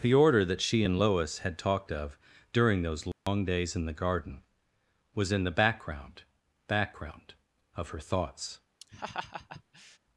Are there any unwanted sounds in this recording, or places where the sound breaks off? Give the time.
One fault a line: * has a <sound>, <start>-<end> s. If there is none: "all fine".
* has a dropout, 3.1-3.3 s
* has a laugh, 8.8-10.0 s